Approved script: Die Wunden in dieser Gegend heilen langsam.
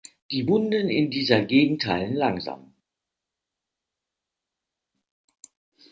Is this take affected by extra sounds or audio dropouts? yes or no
no